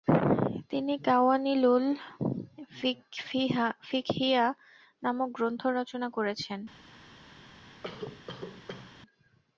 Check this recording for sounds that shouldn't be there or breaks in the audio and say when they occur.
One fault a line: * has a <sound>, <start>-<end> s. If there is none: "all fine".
* has a cough, 7.8-9.0 s